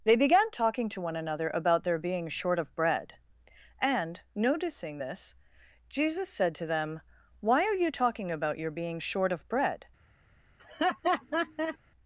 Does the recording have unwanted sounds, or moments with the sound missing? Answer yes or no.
yes